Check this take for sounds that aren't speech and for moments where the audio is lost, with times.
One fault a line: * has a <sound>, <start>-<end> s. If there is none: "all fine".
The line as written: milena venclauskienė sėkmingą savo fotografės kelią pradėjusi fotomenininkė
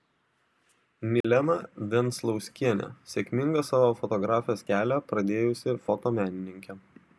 * has a dropout, 1.2-1.2 s